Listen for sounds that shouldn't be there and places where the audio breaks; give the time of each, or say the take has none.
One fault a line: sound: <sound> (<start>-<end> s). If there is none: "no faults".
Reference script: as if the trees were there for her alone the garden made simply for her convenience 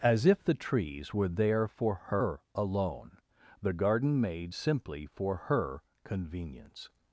no faults